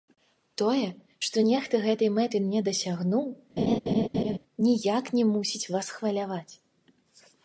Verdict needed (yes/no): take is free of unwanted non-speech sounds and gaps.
no